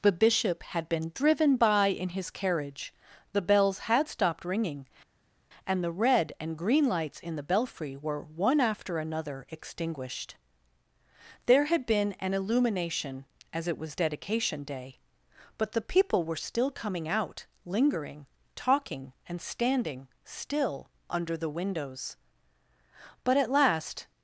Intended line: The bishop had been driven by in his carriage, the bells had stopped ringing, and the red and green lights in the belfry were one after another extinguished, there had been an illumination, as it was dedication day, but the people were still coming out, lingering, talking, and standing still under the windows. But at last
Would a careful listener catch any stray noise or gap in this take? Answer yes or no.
no